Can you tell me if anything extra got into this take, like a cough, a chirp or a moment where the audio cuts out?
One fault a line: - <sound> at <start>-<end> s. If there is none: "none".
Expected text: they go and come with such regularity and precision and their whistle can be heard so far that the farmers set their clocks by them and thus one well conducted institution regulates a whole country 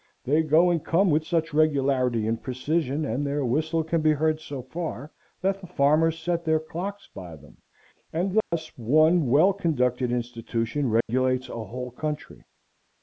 - dropout at 8.4-8.5 s
- dropout at 11.0-11.1 s